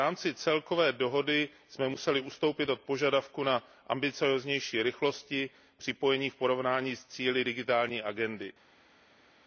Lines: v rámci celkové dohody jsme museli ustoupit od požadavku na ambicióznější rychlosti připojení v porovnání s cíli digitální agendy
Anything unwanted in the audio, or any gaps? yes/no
no